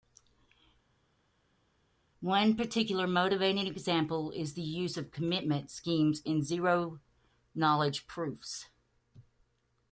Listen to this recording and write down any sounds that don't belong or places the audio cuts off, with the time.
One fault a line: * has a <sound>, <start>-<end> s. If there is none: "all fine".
all fine